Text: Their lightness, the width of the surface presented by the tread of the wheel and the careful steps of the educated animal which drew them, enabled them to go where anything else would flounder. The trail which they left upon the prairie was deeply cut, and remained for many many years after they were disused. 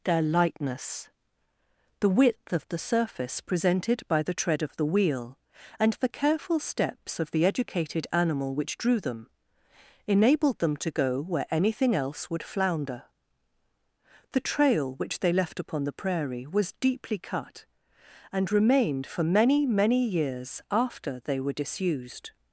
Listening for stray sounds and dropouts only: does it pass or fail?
pass